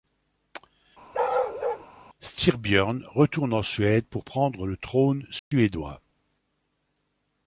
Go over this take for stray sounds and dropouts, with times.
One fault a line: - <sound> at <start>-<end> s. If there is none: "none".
- bark at 1.1-1.9 s
- dropout at 5.4-5.5 s